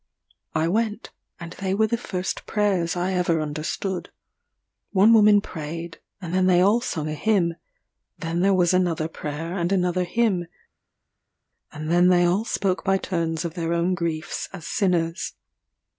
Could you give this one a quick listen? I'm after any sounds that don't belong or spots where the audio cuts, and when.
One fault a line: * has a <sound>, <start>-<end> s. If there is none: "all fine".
all fine